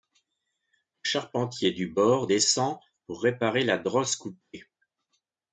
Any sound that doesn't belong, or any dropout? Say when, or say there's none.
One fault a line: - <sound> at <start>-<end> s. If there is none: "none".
none